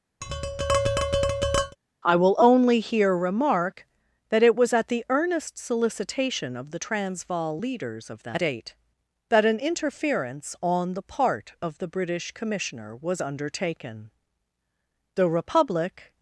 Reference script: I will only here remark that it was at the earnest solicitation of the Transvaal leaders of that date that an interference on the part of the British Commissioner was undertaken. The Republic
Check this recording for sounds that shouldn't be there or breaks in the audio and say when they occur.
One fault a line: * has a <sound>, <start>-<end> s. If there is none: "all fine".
* has a tap, 0.2-1.8 s